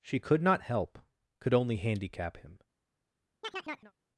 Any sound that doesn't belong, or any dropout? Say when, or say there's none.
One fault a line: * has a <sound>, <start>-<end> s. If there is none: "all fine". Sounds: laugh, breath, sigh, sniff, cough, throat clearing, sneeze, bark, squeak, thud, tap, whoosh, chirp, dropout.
* has a chirp, 3.4-3.9 s